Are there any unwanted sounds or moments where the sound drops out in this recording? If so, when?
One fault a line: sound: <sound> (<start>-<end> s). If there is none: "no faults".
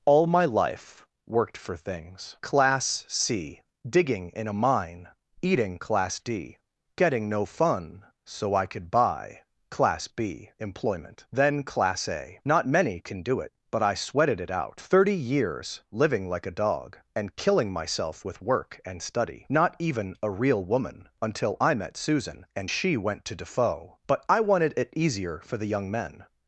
no faults